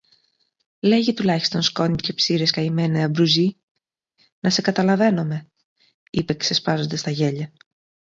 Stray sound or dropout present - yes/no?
no